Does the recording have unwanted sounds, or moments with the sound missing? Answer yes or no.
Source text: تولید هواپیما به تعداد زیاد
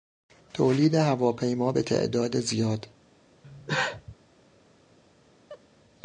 yes